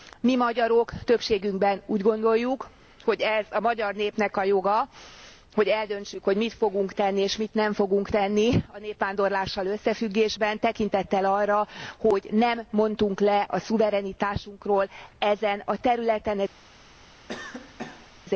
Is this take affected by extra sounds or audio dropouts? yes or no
yes